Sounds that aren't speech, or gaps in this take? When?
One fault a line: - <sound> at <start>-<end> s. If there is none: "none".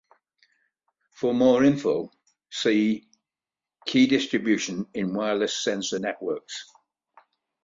none